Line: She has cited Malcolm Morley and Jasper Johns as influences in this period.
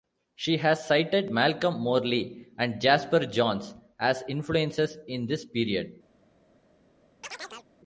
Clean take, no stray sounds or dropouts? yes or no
no